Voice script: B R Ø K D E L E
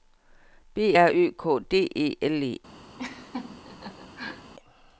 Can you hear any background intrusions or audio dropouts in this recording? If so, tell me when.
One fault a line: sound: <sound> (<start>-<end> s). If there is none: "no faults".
sound: laugh (3.0-4.5 s)